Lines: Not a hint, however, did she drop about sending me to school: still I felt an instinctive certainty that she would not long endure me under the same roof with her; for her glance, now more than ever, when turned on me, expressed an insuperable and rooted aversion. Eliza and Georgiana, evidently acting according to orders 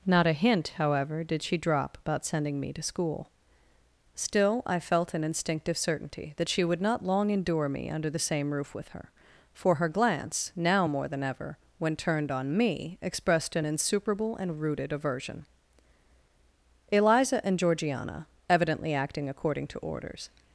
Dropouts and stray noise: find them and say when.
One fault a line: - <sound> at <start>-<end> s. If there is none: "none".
none